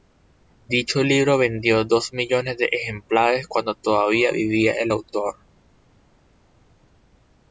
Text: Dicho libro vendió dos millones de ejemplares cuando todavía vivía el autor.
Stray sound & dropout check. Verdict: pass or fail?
pass